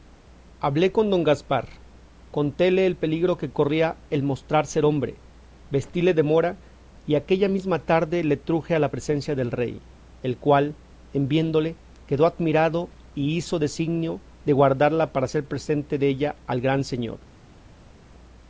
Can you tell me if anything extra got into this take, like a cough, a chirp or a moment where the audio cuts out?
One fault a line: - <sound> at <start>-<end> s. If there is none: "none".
none